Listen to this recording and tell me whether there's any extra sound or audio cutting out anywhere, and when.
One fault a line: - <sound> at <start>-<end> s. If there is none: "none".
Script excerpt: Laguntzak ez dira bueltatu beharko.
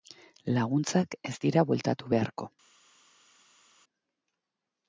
none